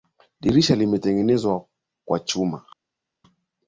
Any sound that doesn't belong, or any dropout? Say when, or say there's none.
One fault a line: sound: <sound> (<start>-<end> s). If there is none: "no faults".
no faults